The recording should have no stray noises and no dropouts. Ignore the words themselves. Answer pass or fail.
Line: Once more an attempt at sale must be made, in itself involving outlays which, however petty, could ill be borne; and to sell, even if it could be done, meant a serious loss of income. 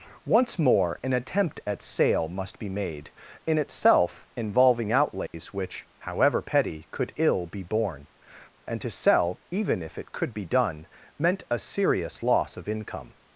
fail